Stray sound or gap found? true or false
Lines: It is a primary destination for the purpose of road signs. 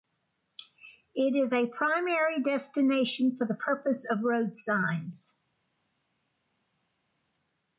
false